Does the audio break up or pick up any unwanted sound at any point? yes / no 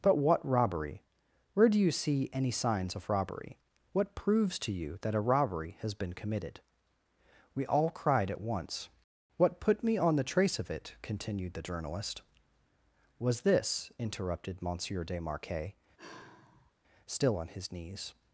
yes